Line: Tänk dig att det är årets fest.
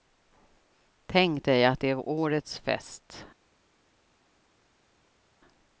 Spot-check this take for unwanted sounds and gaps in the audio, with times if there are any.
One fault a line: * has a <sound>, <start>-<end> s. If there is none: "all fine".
all fine